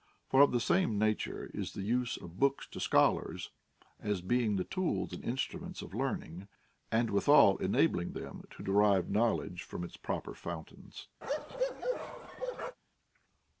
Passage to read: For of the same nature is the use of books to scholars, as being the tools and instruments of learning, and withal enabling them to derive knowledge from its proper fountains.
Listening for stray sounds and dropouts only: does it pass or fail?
fail